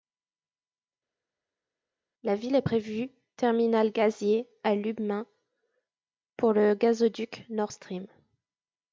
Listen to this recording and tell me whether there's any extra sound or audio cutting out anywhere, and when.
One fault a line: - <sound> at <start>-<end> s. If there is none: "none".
none